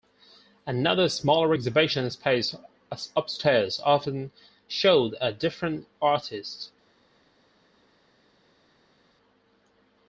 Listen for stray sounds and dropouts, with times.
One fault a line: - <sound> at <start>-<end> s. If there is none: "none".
none